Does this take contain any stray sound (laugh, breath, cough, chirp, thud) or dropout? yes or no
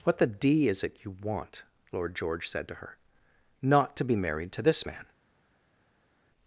no